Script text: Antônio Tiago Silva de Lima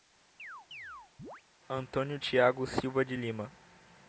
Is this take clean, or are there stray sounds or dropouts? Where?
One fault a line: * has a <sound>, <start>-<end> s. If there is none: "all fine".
* has a chirp, 0.4-1.4 s